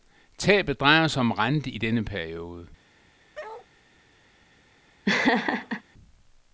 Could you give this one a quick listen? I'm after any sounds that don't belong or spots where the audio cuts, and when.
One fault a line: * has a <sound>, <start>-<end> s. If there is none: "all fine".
* has a bark, 3.3-3.7 s
* has a laugh, 5.1-5.8 s